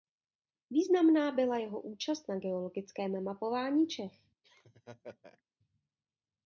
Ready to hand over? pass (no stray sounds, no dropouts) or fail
fail